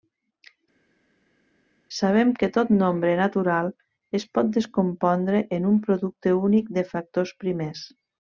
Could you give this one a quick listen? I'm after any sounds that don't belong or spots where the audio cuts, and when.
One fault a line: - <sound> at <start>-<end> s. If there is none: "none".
none